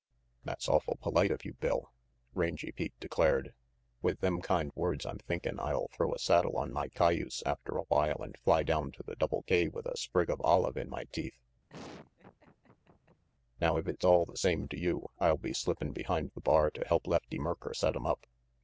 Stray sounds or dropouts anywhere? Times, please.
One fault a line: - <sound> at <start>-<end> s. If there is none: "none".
- laugh at 11.7-13.2 s